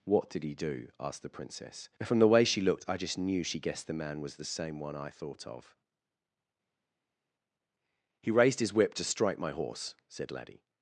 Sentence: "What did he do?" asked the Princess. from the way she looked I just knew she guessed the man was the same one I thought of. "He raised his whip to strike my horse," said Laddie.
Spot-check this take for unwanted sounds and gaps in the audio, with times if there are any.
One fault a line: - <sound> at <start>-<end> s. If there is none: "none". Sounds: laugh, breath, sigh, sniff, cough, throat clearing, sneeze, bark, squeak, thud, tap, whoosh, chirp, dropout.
none